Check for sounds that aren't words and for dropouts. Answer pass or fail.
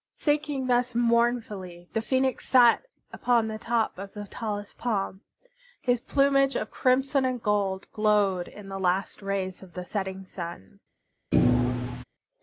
fail